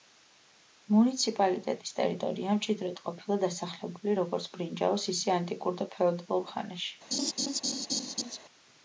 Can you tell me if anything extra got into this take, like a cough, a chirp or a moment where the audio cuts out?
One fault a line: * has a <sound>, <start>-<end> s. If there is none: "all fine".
* has a laugh, 7.1-8.4 s